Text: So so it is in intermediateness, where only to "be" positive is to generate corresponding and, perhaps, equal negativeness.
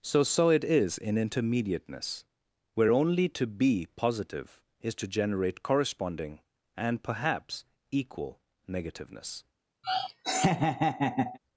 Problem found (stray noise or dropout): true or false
true